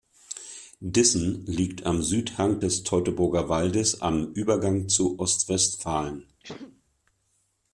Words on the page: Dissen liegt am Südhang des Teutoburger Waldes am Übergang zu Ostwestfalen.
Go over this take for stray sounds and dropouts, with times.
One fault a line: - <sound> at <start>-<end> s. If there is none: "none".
- sneeze at 6.4-6.8 s